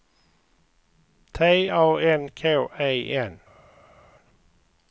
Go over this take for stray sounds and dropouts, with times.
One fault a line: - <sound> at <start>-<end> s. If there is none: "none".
none